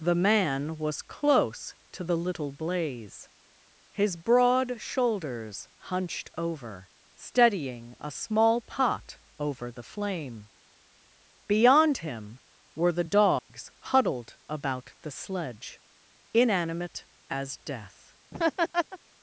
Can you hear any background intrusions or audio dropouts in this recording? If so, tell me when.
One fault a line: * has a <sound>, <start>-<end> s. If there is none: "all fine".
* has a dropout, 13.4-13.5 s
* has a laugh, 18.3-19.0 s